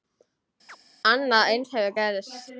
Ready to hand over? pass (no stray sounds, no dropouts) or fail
fail